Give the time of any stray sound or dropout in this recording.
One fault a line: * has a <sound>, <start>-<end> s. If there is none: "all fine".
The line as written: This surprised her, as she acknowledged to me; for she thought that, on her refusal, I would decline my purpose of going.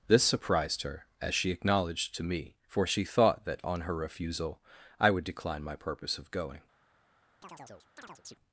* has a chirp, 7.4-8.4 s